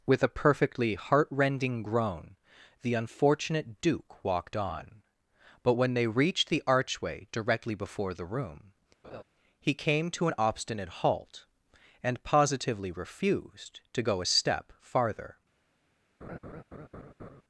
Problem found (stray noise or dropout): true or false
true